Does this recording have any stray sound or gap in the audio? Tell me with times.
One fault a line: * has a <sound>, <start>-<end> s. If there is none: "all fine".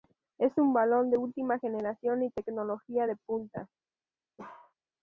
* has a bark, 4.4-4.7 s